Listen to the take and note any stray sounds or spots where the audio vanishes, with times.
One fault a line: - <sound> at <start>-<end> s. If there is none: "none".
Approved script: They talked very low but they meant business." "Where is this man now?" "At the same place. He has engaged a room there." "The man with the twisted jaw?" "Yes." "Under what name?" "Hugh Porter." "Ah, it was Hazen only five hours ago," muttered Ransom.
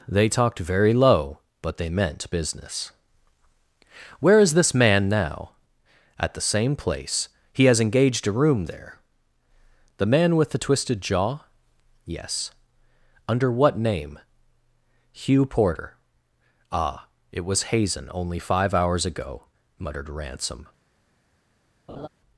- laugh at 21.9-22.1 s